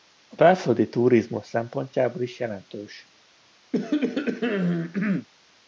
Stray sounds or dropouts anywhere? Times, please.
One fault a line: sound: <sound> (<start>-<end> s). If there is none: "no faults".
sound: cough (3.7-5.3 s)